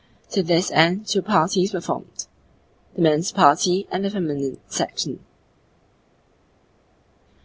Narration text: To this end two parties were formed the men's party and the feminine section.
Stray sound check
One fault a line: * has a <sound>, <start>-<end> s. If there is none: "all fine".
all fine